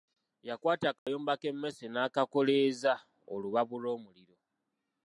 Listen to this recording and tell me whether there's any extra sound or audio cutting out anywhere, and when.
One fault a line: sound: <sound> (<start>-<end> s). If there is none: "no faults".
sound: dropout (1.0-1.1 s)